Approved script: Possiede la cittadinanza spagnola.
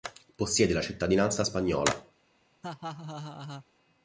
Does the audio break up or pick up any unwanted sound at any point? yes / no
yes